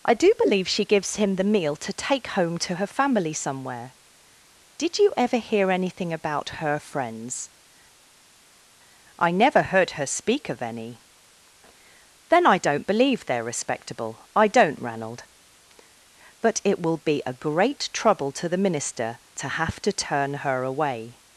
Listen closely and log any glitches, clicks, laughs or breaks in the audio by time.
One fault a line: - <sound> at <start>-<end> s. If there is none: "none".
none